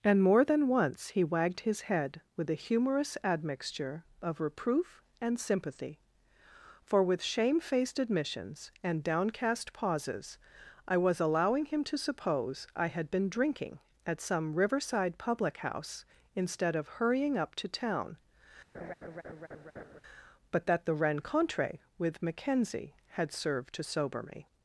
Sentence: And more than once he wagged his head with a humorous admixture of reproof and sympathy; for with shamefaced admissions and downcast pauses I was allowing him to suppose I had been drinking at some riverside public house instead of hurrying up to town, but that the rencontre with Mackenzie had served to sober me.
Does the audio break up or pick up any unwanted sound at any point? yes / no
yes